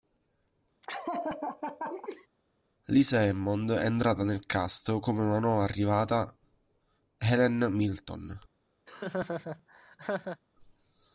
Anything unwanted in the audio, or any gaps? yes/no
yes